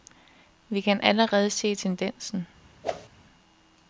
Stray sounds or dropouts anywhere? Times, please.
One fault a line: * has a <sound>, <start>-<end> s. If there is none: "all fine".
* has a whoosh, 2.8-3.1 s